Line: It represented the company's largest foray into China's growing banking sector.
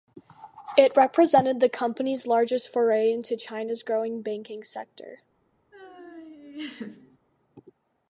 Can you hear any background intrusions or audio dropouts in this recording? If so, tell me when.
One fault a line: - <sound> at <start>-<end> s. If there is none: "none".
- laugh at 5.7-7.2 s